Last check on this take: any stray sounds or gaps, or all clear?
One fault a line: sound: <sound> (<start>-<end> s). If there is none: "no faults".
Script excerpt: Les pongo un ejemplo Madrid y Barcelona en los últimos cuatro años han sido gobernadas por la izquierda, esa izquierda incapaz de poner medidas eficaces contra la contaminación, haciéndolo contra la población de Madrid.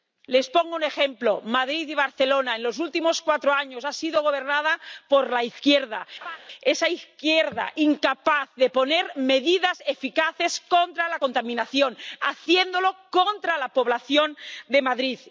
sound: laugh (6.2-6.4 s)